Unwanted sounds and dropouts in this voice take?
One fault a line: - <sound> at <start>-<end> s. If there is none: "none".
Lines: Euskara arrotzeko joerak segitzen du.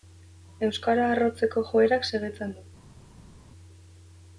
none